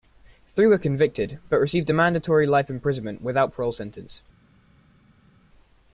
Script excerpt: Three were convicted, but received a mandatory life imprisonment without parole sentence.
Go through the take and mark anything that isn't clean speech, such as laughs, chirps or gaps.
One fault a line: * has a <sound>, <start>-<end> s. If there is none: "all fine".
all fine